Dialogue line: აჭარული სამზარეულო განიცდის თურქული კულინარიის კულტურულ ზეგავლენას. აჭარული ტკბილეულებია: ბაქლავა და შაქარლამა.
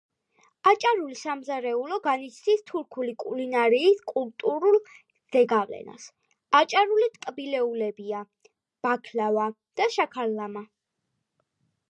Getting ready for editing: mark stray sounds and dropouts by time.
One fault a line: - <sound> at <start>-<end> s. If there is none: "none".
none